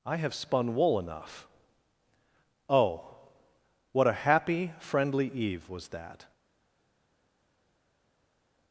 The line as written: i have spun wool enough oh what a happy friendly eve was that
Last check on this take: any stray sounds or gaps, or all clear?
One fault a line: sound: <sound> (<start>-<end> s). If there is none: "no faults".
no faults